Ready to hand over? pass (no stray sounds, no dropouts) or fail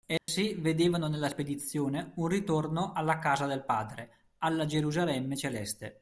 fail